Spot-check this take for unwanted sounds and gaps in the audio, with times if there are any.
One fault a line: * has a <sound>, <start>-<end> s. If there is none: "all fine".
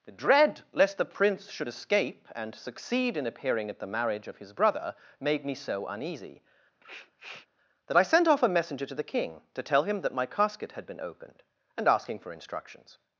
* has a sniff, 6.8-7.5 s